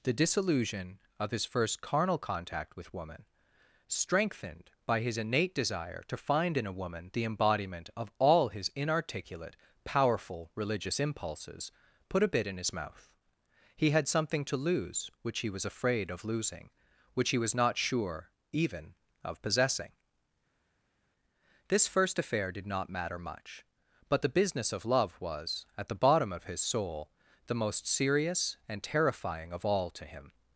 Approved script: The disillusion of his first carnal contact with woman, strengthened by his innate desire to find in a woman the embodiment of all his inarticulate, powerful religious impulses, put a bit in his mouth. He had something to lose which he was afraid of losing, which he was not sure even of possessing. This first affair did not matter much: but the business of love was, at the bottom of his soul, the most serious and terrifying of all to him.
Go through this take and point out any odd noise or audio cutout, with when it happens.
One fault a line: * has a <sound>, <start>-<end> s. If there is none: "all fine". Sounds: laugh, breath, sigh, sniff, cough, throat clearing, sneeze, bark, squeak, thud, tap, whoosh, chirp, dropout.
all fine